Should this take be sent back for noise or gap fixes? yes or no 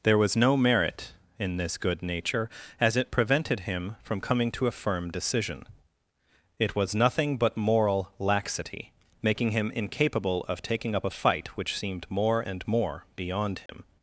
yes